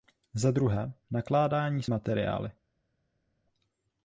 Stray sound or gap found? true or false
false